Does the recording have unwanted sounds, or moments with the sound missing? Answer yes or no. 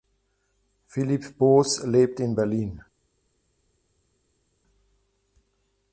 no